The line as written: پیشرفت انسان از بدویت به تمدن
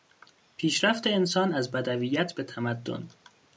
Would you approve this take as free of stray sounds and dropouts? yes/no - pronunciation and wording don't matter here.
yes